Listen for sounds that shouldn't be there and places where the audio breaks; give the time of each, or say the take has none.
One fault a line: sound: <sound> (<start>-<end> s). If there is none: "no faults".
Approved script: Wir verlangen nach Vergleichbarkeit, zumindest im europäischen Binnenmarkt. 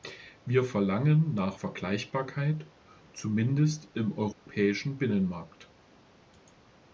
sound: dropout (4.3-4.5 s)